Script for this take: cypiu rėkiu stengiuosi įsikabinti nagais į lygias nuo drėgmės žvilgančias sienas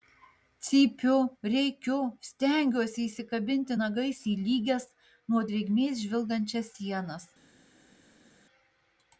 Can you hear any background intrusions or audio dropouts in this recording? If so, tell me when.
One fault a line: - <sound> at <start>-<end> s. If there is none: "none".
none